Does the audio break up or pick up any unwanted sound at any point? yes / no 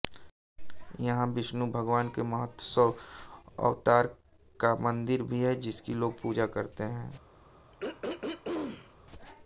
yes